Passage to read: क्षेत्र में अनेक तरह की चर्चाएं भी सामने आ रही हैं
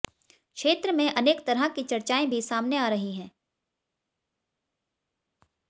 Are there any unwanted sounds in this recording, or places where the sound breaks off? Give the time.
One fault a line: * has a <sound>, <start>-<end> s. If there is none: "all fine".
all fine